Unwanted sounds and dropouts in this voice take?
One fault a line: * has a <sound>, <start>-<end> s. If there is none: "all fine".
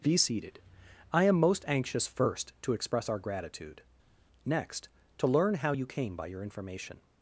all fine